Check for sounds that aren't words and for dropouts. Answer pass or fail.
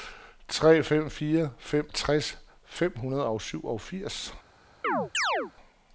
fail